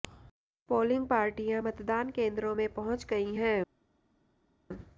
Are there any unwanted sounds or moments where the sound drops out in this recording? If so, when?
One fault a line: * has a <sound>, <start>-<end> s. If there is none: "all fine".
all fine